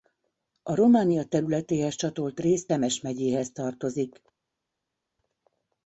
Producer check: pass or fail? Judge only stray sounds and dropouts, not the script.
pass